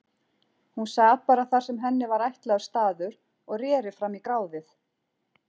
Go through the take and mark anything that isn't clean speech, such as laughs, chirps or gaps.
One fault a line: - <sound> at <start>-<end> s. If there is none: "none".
none